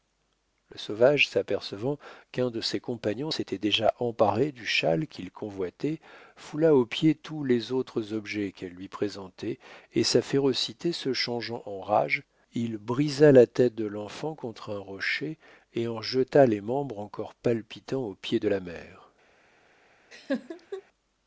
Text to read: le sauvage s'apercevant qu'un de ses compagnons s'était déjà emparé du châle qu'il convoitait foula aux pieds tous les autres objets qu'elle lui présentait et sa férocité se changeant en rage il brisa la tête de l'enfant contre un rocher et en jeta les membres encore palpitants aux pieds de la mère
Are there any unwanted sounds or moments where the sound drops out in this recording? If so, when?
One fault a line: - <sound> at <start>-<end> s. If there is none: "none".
- laugh at 20.1-20.8 s